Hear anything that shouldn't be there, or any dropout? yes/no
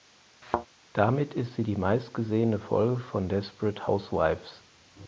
yes